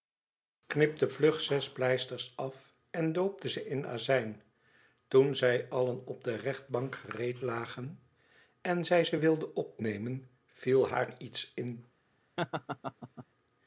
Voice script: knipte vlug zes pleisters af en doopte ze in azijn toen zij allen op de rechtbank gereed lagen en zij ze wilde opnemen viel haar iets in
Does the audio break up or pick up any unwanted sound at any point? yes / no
yes